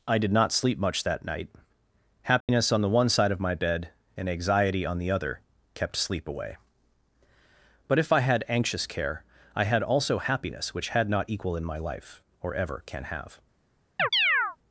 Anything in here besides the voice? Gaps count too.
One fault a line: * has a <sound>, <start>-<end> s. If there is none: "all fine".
* has a dropout, 2.4-2.5 s
* has a chirp, 14.0-14.6 s